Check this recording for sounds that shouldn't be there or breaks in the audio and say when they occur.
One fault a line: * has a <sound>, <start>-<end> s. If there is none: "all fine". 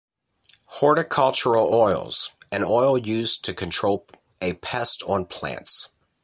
all fine